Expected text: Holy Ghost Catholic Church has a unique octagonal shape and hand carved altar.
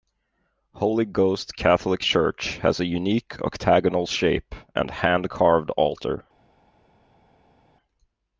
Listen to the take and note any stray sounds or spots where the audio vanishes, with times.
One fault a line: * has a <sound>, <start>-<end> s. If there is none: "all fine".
all fine